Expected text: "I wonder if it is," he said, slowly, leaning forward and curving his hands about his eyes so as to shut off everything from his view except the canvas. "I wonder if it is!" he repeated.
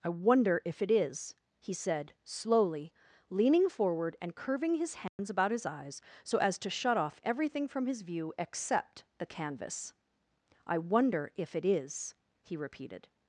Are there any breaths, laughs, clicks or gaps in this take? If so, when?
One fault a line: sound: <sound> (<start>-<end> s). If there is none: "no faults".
sound: dropout (5.1-5.2 s)